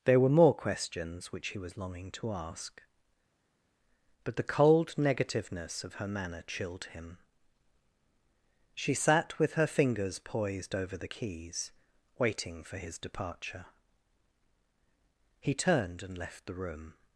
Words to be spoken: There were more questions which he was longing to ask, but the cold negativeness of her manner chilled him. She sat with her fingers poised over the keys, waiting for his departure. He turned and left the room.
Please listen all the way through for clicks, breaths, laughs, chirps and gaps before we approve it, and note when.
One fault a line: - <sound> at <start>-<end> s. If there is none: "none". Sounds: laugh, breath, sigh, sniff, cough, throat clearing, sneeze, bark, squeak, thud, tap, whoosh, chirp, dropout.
none